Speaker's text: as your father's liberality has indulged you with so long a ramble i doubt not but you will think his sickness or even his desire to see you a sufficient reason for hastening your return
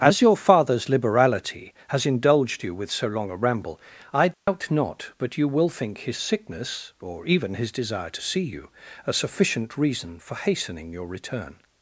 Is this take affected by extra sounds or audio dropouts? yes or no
yes